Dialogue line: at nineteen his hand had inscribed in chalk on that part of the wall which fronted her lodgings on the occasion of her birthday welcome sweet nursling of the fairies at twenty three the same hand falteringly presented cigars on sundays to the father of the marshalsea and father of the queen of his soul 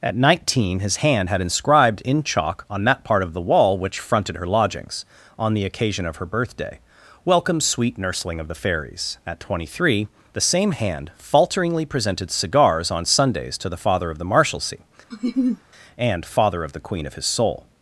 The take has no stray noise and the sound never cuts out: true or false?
false